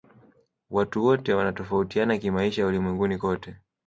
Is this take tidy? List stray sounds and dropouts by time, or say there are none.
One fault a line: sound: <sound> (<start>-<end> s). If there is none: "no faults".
no faults